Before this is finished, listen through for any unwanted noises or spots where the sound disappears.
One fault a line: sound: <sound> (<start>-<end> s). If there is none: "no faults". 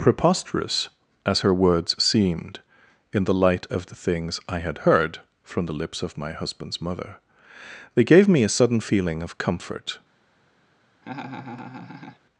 sound: laugh (11.0-12.2 s)